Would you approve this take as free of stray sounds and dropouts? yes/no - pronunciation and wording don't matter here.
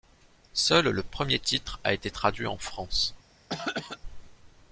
no